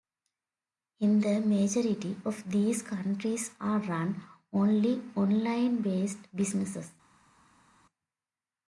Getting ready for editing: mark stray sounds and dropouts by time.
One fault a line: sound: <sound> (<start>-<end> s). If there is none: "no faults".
no faults